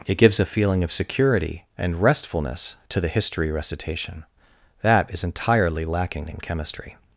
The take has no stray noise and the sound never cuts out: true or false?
true